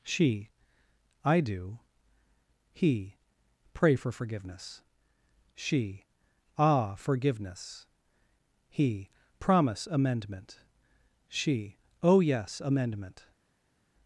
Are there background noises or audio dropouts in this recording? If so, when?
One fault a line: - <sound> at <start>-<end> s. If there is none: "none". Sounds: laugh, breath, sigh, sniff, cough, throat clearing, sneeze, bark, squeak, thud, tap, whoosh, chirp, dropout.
none